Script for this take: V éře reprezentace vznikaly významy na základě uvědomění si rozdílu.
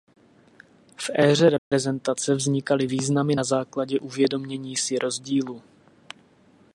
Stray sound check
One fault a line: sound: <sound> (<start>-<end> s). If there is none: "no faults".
sound: dropout (1.6-1.7 s)